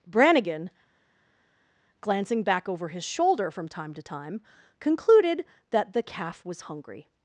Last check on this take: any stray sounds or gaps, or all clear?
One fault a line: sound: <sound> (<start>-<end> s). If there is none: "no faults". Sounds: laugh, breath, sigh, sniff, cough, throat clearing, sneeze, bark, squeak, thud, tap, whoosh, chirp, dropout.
no faults